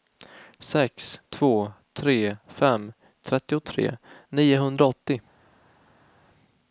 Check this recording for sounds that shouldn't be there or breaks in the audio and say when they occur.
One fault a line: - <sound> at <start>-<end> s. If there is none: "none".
none